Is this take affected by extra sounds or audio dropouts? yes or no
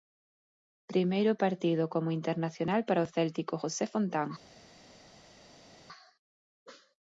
no